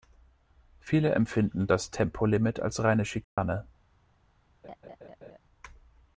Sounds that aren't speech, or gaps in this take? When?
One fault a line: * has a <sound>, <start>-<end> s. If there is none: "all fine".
* has a dropout, 3.2-3.4 s
* has a laugh, 4.6-5.4 s